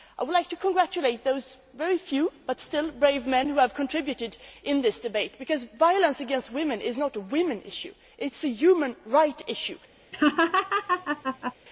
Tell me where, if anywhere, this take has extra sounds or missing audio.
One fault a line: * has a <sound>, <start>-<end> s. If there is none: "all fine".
* has a laugh, 10.1-11.5 s